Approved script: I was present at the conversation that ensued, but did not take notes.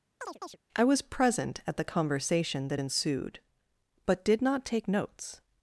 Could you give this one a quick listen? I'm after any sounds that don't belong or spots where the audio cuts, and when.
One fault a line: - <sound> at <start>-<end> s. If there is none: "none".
- chirp at 0.2-0.6 s